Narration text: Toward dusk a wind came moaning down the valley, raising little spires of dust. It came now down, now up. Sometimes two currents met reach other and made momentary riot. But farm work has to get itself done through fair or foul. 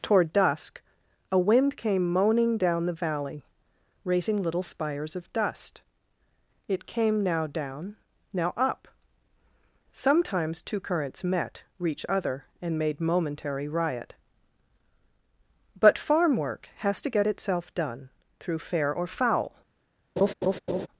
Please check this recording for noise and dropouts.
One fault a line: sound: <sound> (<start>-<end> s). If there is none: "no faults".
sound: laugh (20.2-20.9 s)